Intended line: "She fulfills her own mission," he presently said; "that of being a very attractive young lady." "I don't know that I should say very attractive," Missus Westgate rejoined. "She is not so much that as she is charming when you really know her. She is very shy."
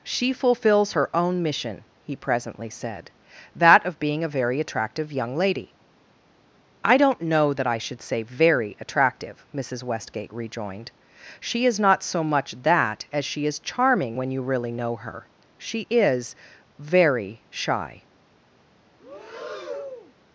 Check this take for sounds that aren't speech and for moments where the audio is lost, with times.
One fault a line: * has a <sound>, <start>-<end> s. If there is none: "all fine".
* has a breath, 19.0-20.1 s